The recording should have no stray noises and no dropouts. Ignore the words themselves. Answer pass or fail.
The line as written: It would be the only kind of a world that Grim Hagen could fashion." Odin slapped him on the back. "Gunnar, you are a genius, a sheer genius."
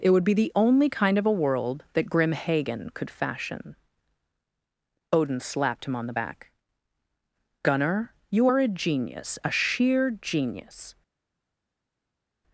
pass